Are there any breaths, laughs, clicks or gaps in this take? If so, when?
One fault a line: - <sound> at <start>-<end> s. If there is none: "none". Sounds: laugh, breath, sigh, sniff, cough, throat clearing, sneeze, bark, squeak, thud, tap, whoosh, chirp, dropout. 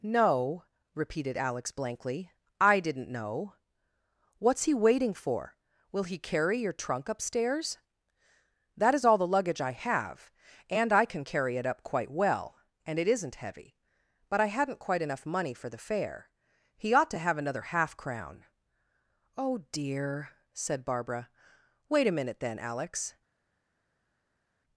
none